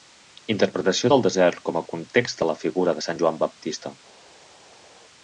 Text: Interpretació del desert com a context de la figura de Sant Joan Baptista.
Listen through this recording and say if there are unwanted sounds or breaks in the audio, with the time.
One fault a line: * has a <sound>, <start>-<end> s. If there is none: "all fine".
all fine